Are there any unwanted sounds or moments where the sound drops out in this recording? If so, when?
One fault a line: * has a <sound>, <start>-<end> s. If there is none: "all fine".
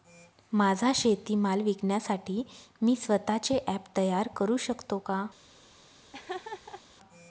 * has a laugh, 6.1-6.8 s